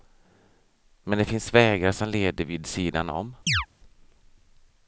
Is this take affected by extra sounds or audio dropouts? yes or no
yes